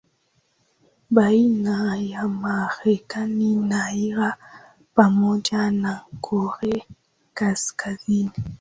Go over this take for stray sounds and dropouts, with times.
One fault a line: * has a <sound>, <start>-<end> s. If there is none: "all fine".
all fine